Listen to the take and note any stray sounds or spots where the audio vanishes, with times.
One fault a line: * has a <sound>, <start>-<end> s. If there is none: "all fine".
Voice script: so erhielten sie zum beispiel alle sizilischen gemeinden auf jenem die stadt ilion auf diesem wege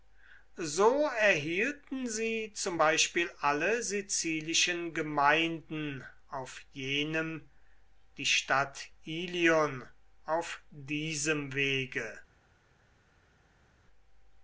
all fine